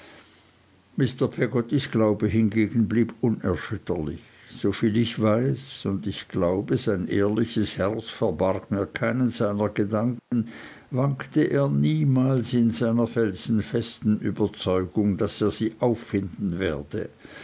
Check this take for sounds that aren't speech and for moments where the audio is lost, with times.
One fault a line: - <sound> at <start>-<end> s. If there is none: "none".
- dropout at 10.2-10.3 s